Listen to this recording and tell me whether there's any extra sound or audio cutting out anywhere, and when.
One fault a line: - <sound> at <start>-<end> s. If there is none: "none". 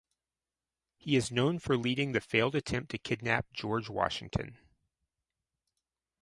none